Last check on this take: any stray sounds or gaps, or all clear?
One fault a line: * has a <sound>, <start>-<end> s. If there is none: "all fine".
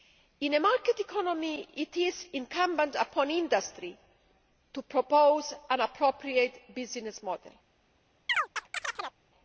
* has a chirp, 8.3-9.2 s